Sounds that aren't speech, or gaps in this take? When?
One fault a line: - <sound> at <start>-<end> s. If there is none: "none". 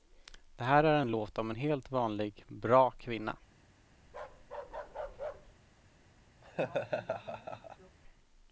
- bark at 4.1-5.5 s
- laugh at 6.4-8.0 s